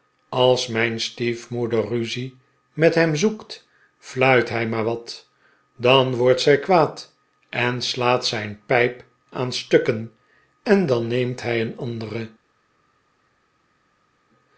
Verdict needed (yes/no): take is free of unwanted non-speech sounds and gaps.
yes